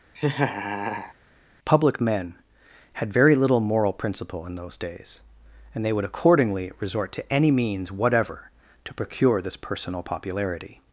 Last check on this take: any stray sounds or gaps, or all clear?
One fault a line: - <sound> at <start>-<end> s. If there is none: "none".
- laugh at 0.2-1.1 s